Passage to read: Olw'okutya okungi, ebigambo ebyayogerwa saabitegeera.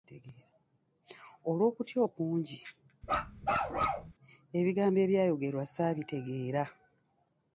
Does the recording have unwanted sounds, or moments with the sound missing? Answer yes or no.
yes